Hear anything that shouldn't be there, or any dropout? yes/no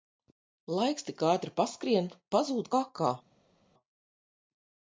no